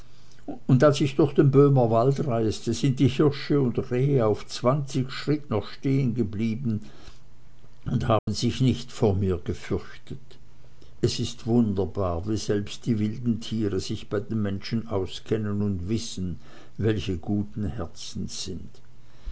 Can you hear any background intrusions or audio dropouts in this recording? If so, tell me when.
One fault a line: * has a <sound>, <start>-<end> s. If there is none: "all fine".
* has a dropout, 8.2-8.3 s